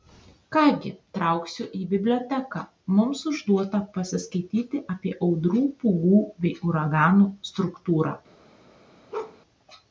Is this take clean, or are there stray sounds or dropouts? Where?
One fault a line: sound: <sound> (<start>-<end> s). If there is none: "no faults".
sound: bark (9.1-9.4 s)